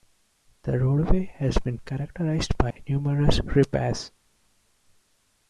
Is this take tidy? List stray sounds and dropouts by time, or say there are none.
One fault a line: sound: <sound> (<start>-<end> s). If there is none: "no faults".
sound: dropout (2.7-2.8 s)